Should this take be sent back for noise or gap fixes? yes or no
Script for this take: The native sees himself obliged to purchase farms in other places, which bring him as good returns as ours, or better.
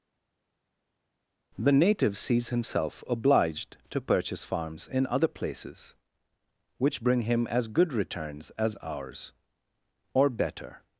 no